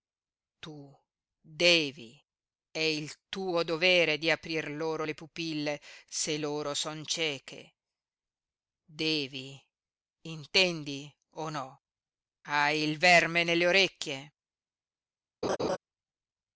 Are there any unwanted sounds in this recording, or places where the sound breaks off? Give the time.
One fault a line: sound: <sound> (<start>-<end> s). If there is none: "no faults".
sound: laugh (15.4-15.8 s)